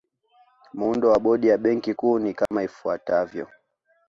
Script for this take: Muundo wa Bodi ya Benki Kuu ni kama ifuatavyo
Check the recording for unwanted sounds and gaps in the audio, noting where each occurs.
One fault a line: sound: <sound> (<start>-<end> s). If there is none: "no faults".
sound: dropout (2.5-2.5 s)